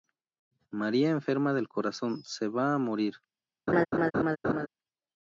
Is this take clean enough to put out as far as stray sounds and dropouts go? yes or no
no